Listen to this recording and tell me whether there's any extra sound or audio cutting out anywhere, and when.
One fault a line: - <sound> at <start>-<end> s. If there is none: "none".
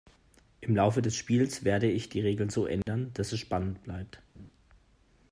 - dropout at 2.8-2.9 s
- laugh at 4.3-4.5 s